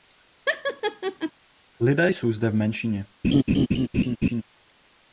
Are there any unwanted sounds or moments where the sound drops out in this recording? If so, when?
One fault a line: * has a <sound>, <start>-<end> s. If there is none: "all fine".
* has a laugh, 0.5-1.3 s
* has a laugh, 3.2-4.4 s